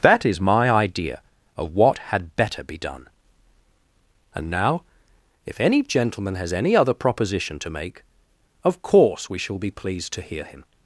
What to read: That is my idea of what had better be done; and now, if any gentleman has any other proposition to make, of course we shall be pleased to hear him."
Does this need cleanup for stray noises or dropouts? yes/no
no